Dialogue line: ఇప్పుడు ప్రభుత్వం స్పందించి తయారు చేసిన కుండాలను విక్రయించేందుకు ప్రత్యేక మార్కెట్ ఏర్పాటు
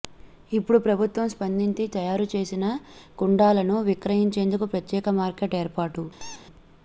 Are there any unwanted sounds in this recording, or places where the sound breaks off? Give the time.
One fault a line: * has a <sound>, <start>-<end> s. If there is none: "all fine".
* has a squeak, 6.2-6.5 s